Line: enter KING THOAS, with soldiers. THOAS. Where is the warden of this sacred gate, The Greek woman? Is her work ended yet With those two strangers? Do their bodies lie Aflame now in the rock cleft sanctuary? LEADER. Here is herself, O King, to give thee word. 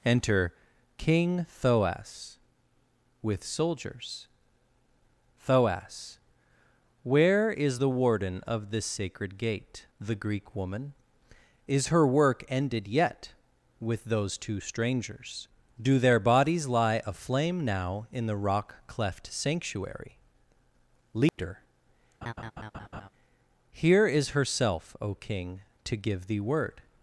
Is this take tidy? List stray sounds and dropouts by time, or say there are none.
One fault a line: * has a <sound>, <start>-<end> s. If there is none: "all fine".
* has a dropout, 21.3-21.4 s
* has a laugh, 22.2-23.1 s